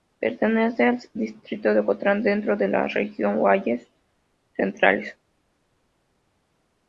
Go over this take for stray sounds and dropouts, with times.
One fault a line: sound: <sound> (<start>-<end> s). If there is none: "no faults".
no faults